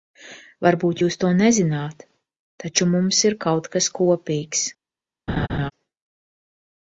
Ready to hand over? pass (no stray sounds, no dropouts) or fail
fail